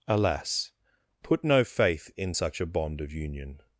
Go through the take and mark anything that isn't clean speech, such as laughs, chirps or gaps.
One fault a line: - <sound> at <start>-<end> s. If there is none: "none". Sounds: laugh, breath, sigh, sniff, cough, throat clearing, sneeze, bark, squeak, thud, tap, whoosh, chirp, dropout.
none